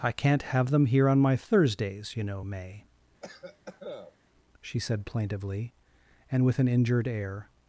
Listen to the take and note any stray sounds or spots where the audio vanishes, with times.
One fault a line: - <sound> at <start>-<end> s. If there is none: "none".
- cough at 3.2-4.2 s